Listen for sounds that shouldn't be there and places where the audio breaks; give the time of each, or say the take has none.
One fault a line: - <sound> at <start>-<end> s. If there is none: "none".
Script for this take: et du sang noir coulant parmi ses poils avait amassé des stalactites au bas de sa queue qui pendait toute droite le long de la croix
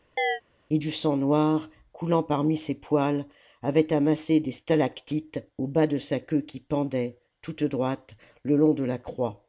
- chirp at 0.2-0.4 s